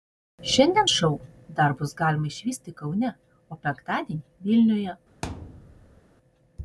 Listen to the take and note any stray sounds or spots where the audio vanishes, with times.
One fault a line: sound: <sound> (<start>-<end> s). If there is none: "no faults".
sound: thud (5.2-6.0 s)